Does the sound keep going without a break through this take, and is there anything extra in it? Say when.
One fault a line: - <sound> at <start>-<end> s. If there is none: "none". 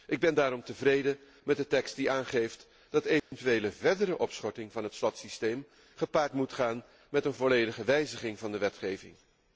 - dropout at 3.2-3.3 s